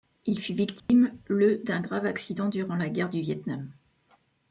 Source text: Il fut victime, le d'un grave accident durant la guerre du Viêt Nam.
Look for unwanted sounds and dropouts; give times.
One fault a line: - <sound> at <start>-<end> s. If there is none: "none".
- dropout at 0.8-0.9 s